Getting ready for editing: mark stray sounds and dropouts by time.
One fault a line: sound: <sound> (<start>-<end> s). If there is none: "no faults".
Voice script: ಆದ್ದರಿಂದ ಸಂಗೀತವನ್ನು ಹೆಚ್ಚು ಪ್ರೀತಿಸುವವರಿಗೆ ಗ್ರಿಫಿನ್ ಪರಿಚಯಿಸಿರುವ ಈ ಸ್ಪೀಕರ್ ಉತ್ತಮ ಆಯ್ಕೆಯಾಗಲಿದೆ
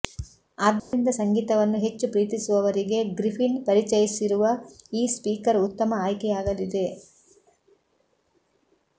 sound: dropout (0.8-0.9 s)